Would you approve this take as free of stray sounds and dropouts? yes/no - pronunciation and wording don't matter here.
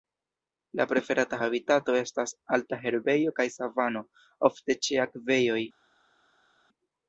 yes